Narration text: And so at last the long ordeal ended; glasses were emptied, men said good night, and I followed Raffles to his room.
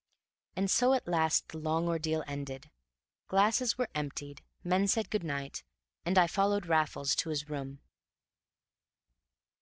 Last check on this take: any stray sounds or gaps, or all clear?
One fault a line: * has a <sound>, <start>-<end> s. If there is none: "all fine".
all fine